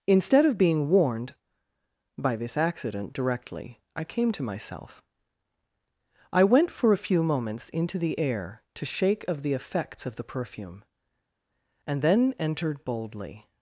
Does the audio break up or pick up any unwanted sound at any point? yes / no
no